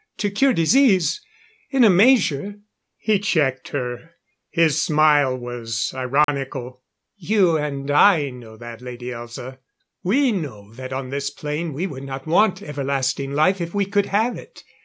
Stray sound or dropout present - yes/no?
yes